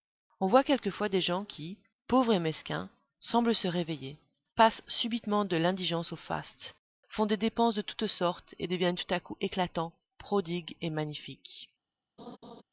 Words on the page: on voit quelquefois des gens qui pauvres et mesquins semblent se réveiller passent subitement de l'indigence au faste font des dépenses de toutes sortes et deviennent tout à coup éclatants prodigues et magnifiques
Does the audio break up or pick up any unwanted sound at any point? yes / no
yes